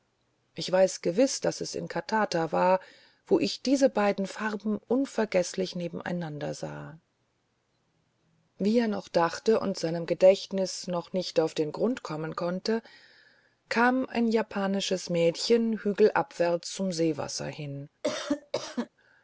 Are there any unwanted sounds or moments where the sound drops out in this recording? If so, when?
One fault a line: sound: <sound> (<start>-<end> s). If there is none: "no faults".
sound: cough (18.0-18.9 s)